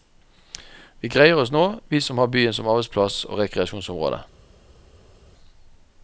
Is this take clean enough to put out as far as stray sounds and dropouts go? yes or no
yes